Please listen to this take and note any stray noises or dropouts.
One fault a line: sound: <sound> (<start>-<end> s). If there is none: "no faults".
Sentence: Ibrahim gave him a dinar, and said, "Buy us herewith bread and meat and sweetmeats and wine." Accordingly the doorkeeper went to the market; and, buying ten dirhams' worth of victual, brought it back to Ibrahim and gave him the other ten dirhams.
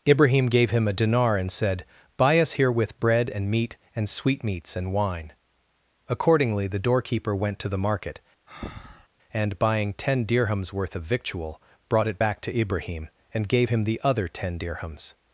sound: breath (8.5-9.1 s)